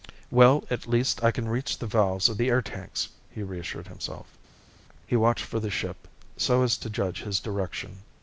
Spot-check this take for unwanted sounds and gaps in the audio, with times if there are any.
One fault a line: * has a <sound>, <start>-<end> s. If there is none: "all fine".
all fine